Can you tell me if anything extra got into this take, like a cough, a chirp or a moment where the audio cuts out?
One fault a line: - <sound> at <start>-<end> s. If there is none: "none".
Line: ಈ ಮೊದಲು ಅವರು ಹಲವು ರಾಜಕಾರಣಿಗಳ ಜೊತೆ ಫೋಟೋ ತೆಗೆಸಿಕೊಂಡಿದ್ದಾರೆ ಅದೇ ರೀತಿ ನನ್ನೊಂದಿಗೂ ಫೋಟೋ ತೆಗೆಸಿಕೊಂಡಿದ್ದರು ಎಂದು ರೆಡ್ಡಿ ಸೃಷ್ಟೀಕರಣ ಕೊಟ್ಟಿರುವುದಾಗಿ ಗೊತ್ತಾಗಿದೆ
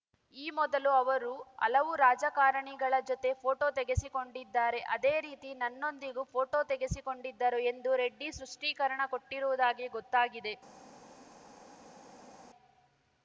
none